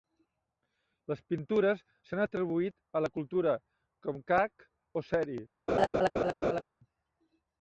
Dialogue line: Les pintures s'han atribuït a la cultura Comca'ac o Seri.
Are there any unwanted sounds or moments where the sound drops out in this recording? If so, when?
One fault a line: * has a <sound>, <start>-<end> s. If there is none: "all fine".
* has a laugh, 5.7-6.6 s